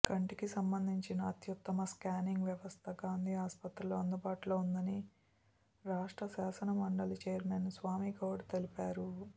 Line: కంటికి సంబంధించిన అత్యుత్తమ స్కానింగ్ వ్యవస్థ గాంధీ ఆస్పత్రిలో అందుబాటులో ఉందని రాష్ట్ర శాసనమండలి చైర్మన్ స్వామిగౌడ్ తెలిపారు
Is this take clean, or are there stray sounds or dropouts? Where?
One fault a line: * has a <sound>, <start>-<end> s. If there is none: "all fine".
all fine